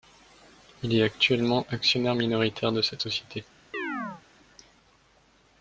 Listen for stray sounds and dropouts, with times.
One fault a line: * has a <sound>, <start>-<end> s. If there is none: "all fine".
* has a chirp, 3.7-4.2 s